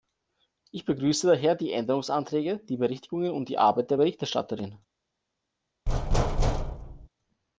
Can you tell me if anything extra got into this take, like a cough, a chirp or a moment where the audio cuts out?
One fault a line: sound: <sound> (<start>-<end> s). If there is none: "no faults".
sound: thud (5.9-7.1 s)